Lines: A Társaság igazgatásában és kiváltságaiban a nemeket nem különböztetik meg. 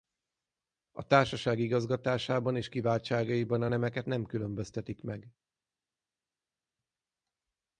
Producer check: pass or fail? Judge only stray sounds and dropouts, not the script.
pass